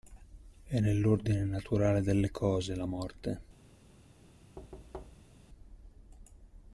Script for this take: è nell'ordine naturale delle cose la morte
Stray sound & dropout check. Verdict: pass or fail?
fail